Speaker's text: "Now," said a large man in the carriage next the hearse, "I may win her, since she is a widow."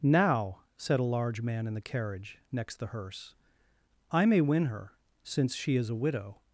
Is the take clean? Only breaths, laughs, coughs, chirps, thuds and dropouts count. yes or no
yes